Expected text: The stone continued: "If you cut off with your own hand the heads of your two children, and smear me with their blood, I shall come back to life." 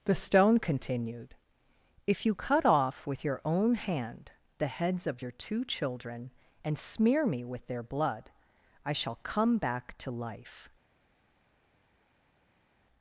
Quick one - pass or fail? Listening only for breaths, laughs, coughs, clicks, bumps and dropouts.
pass